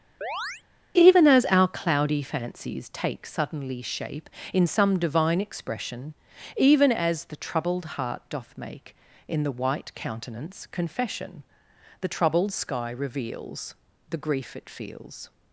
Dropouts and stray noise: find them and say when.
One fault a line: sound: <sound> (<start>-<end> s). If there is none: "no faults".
sound: chirp (0.2-0.6 s)